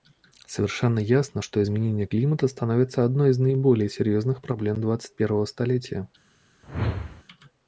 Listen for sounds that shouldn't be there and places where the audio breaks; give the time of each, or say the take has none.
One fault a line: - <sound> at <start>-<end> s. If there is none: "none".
- whoosh at 6.6-7.2 s